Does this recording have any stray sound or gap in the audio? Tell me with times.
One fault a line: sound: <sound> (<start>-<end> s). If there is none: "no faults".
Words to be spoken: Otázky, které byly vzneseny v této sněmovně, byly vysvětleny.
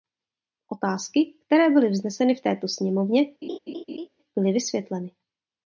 sound: laugh (3.4-4.1 s)